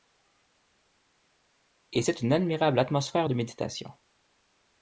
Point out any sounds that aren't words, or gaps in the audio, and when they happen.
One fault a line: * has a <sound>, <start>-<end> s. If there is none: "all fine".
all fine